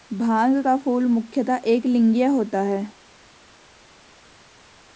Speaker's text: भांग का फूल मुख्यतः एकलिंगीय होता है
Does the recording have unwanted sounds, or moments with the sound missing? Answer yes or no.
no